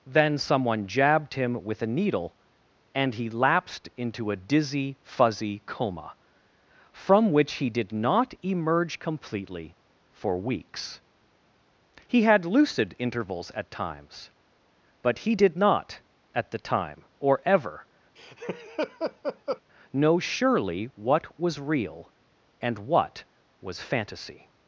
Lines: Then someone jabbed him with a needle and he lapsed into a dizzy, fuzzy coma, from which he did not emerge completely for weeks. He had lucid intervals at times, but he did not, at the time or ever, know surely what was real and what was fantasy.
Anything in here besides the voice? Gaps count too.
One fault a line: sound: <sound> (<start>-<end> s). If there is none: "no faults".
sound: laugh (18.2-19.6 s)